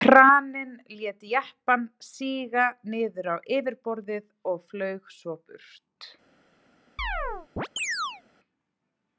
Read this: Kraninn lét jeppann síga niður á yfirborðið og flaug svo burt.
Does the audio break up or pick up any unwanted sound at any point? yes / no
yes